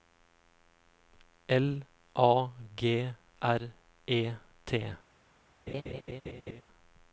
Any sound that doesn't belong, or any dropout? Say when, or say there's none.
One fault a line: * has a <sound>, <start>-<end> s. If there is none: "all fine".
* has a laugh, 5.7-6.6 s